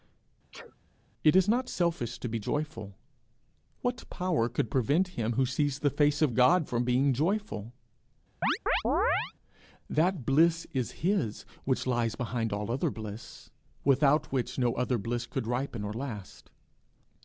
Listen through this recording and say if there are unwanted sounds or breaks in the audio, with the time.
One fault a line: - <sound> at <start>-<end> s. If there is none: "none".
- sneeze at 0.5-0.8 s
- chirp at 8.4-9.3 s